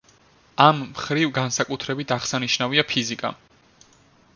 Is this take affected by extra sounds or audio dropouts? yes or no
no